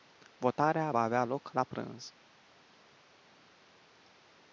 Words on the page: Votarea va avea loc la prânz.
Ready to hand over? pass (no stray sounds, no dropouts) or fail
pass